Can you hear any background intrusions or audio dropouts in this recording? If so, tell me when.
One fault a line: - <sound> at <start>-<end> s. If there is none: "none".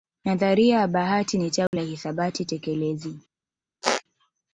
- dropout at 1.7-1.7 s
- squeak at 3.8-4.0 s